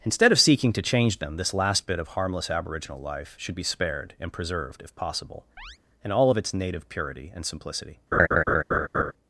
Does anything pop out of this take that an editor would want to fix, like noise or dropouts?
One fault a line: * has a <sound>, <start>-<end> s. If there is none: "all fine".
* has a chirp, 5.6-5.8 s
* has a laugh, 8.1-9.1 s